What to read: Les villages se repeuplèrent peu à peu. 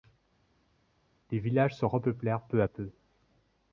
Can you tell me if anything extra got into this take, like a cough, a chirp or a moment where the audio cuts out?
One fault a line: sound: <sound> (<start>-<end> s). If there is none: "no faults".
no faults